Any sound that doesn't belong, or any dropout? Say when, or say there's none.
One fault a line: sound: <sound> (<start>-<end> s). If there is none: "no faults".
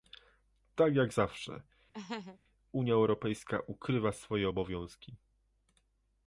sound: laugh (1.9-2.4 s)